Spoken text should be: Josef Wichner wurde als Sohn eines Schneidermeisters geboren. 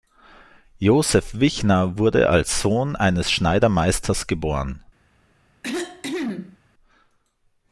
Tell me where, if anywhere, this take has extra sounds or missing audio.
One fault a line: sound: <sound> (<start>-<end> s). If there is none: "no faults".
sound: cough (5.6-6.6 s)